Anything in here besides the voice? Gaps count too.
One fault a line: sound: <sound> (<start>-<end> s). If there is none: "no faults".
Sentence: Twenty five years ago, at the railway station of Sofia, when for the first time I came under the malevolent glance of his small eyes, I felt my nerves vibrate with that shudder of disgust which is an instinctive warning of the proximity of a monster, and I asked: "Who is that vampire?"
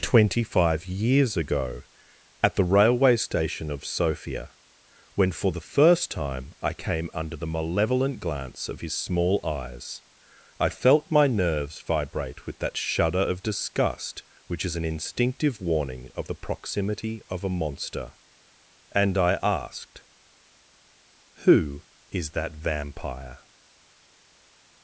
no faults